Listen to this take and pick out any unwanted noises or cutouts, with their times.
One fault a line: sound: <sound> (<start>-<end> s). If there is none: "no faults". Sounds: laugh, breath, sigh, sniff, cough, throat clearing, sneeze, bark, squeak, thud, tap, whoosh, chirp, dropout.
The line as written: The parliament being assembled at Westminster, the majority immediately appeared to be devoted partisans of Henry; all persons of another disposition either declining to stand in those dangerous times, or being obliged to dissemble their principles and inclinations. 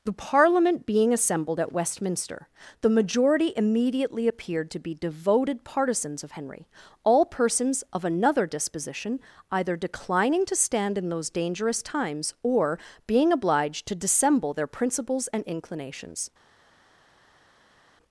no faults